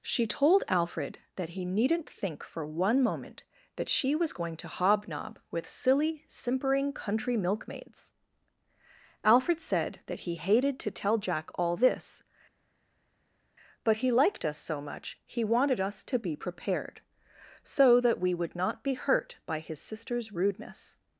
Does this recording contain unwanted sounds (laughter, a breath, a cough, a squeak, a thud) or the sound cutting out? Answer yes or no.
no